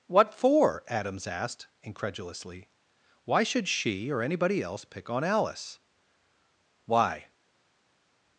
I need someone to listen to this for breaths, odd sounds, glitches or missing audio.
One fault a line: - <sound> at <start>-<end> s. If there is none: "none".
none